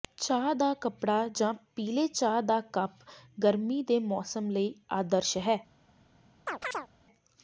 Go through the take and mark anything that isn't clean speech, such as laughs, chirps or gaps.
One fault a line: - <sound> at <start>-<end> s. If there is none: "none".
- chirp at 6.5-6.9 s